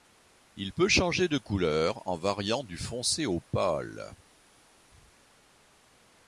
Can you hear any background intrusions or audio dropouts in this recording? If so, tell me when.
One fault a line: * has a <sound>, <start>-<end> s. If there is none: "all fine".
all fine